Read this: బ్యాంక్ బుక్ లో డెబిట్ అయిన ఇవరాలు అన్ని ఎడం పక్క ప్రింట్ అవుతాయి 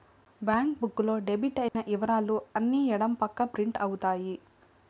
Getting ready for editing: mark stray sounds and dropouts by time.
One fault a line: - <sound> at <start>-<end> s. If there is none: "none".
- dropout at 1.7-1.8 s